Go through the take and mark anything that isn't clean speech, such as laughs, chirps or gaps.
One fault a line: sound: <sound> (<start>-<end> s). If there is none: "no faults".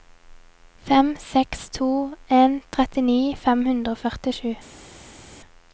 no faults